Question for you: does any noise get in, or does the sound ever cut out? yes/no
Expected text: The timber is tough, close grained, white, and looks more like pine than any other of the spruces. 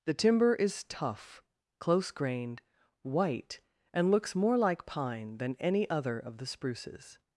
no